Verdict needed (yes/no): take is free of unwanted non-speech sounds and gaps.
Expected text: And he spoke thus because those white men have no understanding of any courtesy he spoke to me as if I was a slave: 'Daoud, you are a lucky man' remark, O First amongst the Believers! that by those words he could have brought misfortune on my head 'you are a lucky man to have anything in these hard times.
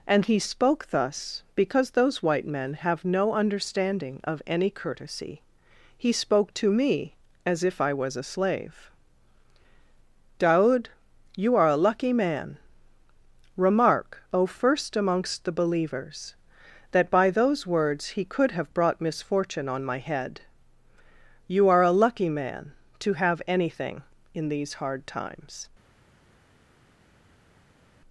yes